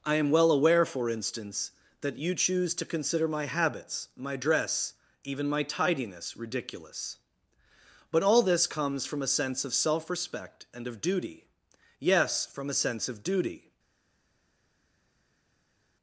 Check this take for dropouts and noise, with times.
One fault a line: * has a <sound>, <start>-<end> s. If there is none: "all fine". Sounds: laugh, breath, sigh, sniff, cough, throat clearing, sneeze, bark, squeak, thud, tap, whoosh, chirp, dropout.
all fine